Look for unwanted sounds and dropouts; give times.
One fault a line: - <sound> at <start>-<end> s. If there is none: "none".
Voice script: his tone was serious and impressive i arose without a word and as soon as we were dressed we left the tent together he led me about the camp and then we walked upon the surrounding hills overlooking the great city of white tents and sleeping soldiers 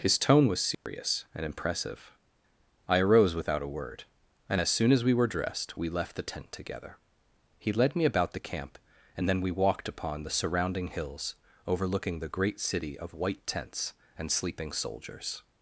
- dropout at 0.7-0.9 s